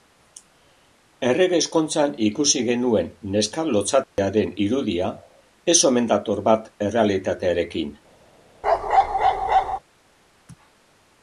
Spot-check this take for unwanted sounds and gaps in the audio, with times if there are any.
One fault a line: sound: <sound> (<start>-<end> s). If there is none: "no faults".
sound: dropout (4.0-4.2 s)
sound: bark (8.6-9.8 s)